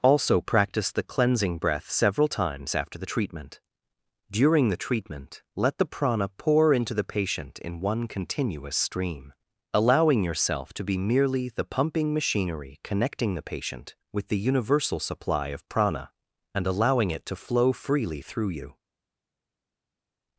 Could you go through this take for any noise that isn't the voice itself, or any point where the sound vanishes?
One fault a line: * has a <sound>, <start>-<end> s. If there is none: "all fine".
all fine